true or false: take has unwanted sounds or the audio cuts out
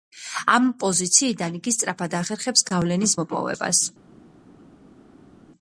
false